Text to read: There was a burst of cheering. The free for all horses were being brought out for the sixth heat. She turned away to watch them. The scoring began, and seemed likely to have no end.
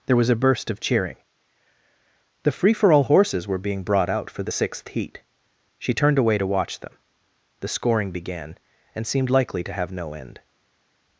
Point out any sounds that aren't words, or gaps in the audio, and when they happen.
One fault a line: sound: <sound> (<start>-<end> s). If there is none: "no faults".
no faults